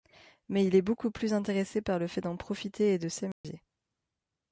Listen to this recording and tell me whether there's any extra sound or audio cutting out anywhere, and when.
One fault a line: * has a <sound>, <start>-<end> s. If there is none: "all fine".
* has a dropout, 3.3-3.4 s